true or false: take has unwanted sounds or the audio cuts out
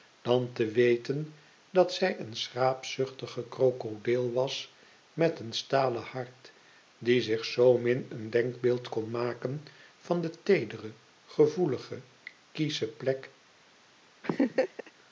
true